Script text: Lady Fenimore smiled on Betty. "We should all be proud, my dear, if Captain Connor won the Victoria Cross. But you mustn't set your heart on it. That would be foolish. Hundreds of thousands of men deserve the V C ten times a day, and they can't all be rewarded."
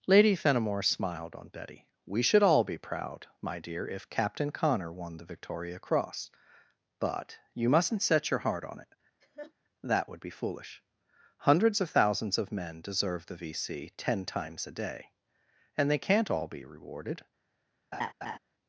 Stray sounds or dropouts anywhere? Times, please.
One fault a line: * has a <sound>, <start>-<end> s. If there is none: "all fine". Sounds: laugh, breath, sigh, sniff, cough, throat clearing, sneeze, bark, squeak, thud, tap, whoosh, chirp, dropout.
* has a laugh, 9.2-9.5 s
* has a laugh, 17.9-18.4 s